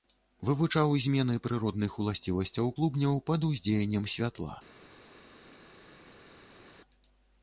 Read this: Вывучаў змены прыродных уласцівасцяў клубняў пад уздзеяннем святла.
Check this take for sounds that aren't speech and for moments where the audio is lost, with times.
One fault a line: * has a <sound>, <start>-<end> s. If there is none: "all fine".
all fine